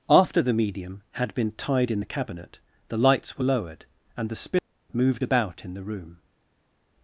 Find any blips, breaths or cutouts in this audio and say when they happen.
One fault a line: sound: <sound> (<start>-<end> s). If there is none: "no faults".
no faults